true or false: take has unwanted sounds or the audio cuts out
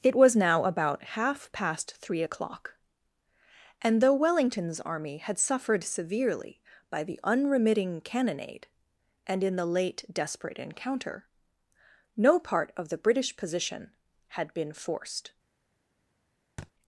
true